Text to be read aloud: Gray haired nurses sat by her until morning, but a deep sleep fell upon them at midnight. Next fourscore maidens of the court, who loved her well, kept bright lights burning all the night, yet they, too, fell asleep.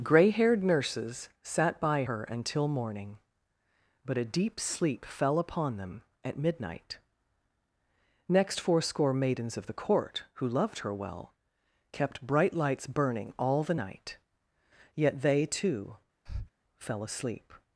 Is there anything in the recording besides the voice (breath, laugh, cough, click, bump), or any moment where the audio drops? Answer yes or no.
yes